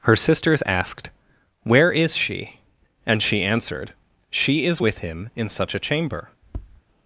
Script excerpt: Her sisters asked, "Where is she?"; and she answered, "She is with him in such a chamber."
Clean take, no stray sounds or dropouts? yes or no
no